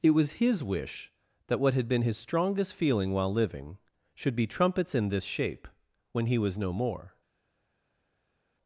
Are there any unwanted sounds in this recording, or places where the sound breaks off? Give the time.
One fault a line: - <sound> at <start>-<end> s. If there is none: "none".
none